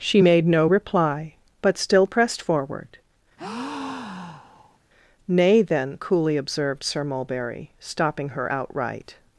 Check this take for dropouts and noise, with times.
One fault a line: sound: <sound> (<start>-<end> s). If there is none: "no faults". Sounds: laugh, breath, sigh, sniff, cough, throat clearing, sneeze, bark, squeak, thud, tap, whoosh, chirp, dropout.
sound: breath (3.4-4.8 s)